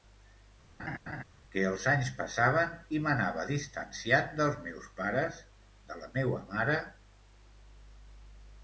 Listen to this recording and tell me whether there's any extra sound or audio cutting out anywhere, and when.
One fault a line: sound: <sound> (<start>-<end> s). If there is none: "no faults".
sound: laugh (0.8-1.2 s)